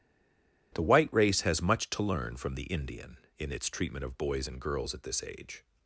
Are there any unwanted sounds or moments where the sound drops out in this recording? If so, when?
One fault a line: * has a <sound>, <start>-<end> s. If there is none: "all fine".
all fine